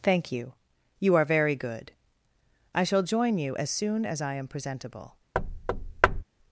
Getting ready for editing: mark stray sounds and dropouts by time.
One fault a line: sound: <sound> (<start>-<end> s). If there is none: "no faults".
sound: thud (5.3-6.2 s)